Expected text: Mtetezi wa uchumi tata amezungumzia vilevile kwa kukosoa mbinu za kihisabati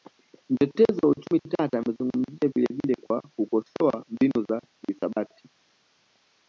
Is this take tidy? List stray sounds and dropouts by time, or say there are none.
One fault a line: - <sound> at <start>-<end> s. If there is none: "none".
none